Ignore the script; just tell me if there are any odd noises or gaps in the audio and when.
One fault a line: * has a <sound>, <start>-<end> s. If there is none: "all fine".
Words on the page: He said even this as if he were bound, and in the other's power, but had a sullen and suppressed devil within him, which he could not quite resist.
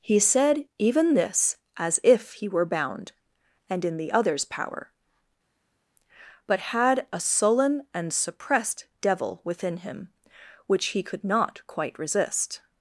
all fine